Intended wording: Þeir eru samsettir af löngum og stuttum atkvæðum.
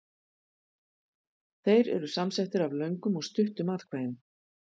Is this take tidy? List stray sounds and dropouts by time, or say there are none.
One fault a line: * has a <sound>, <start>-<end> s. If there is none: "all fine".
all fine